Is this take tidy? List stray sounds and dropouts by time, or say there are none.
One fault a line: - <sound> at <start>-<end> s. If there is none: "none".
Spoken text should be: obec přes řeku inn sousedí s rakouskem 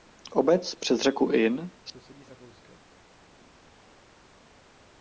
none